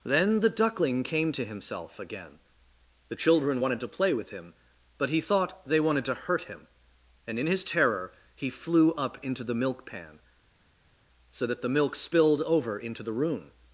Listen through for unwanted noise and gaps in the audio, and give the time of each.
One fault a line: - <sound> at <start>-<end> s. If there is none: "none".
none